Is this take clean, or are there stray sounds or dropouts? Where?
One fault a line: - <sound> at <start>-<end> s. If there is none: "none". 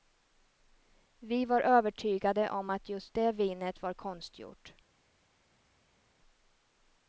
none